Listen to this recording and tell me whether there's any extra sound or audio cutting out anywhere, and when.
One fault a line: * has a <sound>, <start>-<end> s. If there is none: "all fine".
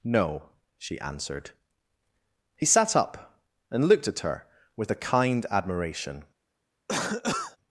* has a cough, 6.9-7.6 s